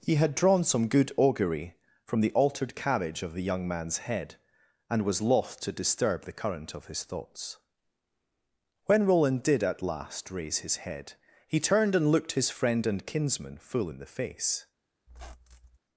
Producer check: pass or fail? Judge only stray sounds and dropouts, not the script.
fail